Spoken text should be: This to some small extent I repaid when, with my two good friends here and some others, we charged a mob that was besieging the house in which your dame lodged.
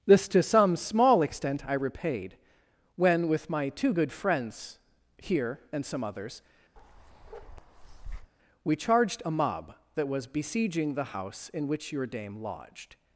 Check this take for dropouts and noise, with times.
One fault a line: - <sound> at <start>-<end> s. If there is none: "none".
- bark at 6.8-8.3 s